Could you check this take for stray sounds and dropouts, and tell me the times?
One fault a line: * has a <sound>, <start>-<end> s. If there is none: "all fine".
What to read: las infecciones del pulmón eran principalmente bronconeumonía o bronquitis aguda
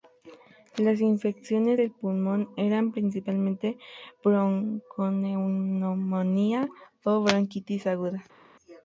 all fine